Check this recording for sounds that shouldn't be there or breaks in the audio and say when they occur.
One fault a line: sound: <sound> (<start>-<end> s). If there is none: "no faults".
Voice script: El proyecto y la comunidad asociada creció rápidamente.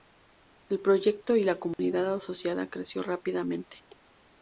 sound: dropout (1.7-1.8 s)